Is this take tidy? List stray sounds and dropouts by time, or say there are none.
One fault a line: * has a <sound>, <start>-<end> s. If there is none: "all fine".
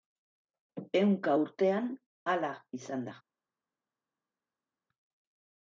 all fine